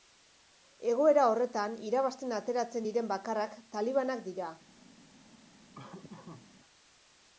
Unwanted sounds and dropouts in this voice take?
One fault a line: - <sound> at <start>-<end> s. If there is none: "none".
- laugh at 5.7-6.5 s